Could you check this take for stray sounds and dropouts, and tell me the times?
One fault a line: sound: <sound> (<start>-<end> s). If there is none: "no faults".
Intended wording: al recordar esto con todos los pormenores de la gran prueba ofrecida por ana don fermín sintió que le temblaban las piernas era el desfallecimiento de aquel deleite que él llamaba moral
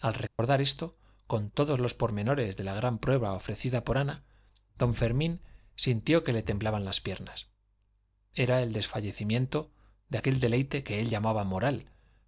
sound: dropout (0.3-0.4 s)